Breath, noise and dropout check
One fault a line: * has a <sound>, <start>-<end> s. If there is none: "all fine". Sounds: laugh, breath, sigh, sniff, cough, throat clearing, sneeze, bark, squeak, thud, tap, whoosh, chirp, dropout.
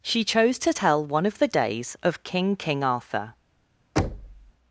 * has a thud, 4.0-4.5 s